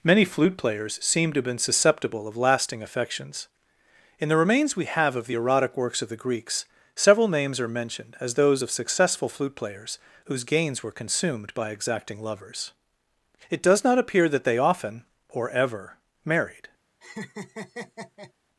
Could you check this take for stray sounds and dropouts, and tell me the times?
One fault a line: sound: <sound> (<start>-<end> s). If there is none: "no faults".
sound: laugh (17.0-18.3 s)